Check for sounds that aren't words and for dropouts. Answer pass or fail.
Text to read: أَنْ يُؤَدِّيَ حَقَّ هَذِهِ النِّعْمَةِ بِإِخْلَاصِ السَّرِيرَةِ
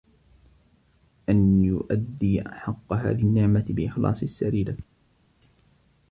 pass